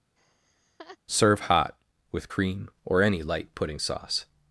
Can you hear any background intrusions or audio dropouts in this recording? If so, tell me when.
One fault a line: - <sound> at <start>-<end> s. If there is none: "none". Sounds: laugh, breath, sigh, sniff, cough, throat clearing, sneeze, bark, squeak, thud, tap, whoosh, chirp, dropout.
- laugh at 0.2-1.0 s